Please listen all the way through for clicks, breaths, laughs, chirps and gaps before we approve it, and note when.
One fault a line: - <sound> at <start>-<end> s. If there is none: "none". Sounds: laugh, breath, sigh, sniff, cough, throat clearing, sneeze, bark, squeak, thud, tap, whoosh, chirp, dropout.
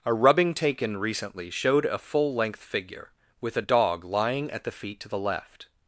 none